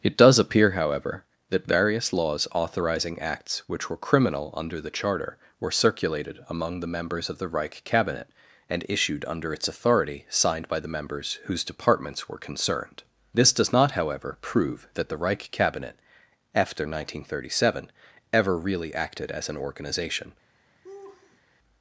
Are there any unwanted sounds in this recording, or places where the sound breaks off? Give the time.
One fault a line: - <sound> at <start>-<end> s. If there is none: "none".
- laugh at 20.8-21.4 s